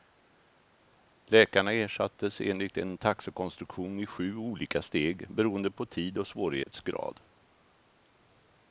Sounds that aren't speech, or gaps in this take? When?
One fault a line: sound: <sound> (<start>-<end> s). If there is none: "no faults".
sound: dropout (6.6-6.7 s)